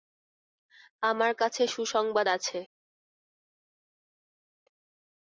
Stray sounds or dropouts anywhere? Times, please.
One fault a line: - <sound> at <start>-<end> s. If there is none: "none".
none